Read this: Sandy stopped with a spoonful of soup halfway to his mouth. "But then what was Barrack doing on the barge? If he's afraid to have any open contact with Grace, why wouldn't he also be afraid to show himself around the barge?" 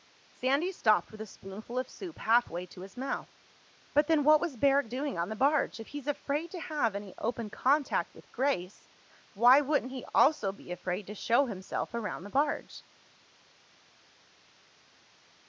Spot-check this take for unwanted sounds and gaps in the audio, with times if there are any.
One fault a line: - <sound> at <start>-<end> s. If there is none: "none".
none